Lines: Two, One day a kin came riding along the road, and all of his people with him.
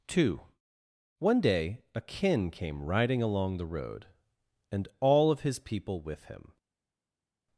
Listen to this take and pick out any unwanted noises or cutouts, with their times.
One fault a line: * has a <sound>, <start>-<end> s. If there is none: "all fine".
all fine